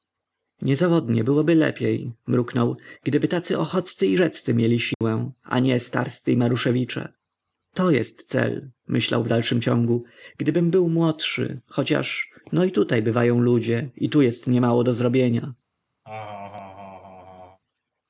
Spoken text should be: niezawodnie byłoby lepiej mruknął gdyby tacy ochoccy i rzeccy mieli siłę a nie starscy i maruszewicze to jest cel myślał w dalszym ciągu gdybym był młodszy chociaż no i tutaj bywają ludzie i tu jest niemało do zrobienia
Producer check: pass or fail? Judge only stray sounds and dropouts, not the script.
fail